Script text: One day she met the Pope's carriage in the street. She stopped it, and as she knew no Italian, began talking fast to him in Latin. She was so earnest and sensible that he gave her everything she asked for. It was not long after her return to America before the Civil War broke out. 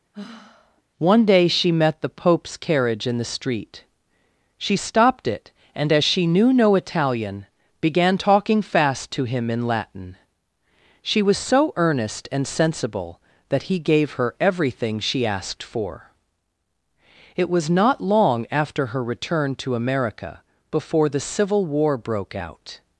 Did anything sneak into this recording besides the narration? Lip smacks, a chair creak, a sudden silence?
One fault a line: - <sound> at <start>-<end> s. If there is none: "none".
- sigh at 0.1-0.8 s